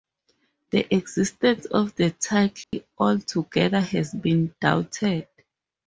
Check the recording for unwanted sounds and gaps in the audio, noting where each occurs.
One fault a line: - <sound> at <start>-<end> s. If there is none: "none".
- dropout at 2.6-2.7 s